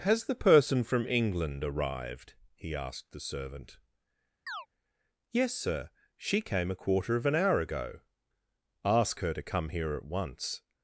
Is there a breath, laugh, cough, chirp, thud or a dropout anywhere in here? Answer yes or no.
yes